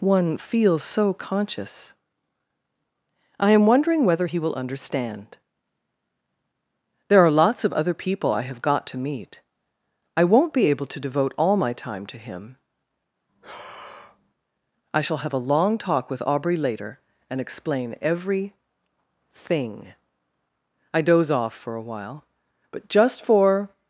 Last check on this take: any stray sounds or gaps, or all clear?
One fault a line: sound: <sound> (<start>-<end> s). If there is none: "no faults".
sound: breath (13.3-14.3 s)